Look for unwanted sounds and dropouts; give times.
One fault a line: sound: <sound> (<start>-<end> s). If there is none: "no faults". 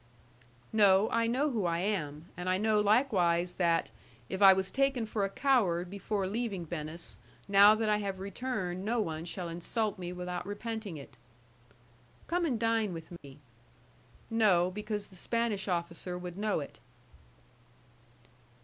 sound: dropout (13.2-13.2 s)